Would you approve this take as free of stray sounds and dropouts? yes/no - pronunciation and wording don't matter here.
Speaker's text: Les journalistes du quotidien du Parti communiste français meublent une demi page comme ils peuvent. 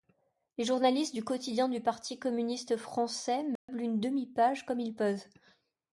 no